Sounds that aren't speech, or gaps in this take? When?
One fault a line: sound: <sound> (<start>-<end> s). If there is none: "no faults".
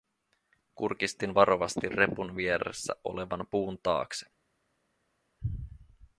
no faults